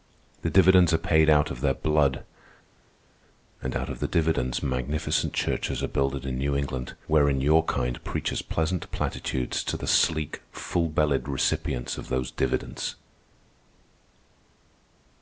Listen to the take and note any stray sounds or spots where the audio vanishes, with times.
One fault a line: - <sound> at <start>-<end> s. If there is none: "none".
none